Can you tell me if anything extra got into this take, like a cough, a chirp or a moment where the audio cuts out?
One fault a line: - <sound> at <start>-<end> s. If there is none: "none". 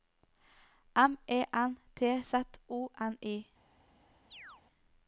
- chirp at 4.3-4.6 s